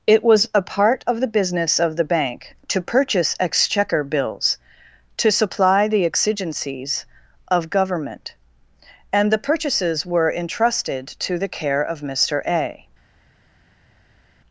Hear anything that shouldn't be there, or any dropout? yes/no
no